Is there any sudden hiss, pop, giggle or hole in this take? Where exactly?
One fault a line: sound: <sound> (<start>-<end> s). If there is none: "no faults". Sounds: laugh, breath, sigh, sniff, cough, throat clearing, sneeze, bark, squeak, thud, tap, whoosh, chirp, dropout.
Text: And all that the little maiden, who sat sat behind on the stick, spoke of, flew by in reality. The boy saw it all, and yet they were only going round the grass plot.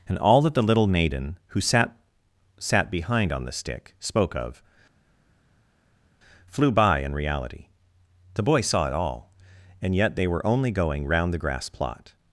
no faults